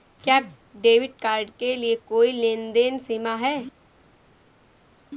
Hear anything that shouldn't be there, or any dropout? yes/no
no